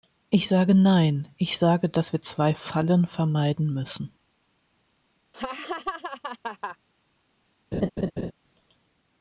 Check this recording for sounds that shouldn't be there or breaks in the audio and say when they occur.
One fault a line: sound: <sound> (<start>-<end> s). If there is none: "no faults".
sound: laugh (5.3-6.8 s)
sound: laugh (7.7-8.3 s)